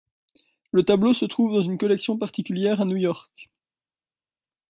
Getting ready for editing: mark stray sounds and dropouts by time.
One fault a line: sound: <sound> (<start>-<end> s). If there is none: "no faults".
no faults